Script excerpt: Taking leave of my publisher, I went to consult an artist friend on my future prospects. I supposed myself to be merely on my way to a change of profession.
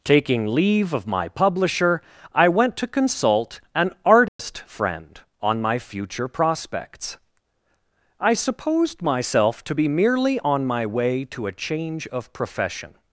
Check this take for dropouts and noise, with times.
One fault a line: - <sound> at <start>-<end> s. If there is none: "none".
- dropout at 4.3-4.4 s